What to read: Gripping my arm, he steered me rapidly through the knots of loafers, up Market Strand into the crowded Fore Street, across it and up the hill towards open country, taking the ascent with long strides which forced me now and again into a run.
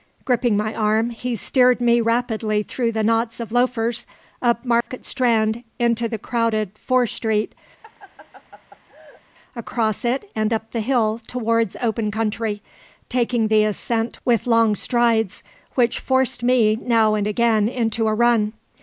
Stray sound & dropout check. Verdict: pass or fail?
fail